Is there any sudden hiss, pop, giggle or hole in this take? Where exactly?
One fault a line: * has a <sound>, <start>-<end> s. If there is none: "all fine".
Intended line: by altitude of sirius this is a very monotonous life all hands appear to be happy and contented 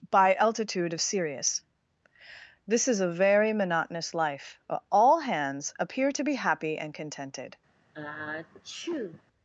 * has a sneeze, 7.9-9.2 s